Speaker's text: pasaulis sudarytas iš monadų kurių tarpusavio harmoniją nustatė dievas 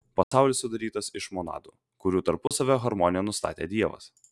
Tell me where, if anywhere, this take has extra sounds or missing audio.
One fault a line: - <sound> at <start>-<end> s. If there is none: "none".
- dropout at 0.2-0.3 s
- dropout at 2.5-2.5 s